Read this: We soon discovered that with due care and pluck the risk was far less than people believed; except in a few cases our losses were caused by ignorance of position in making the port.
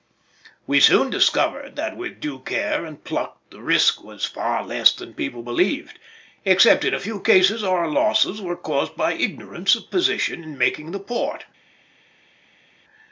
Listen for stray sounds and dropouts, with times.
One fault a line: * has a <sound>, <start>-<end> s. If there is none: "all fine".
all fine